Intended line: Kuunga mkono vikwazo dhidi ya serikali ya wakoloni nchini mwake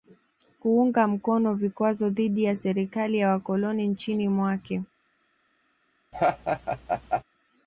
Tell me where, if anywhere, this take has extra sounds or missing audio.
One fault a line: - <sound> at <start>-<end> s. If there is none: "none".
- laugh at 6.1-7.2 s